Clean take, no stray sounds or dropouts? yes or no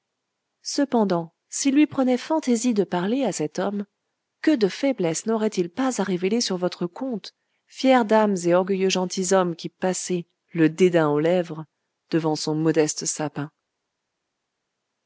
yes